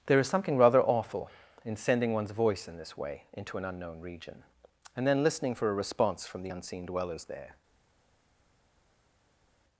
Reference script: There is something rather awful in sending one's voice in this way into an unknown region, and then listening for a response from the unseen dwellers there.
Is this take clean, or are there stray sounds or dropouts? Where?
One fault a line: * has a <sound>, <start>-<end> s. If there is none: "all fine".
all fine